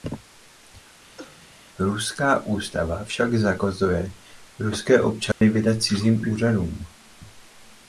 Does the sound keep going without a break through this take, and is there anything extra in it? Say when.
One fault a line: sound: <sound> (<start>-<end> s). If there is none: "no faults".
sound: cough (1.2-1.5 s)
sound: dropout (5.3-5.4 s)